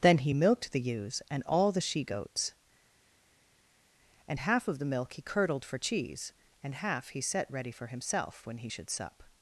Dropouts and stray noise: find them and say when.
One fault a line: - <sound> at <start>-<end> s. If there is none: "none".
none